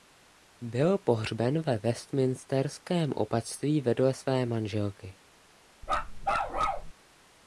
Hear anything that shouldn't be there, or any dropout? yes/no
yes